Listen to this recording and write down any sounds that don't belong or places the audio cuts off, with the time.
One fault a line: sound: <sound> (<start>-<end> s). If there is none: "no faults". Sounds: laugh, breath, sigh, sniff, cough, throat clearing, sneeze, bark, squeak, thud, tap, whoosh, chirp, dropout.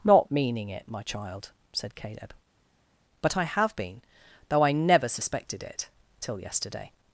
no faults